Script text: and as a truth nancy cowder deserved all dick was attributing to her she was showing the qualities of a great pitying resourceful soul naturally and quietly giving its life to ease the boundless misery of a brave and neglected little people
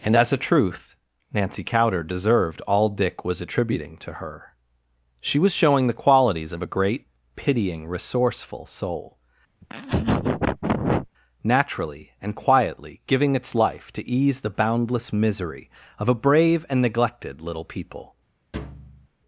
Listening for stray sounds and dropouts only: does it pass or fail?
fail